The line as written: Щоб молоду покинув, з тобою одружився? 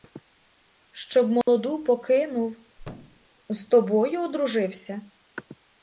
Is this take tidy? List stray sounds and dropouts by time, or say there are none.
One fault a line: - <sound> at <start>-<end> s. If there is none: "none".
- dropout at 1.4-1.5 s
- thud at 2.8-3.3 s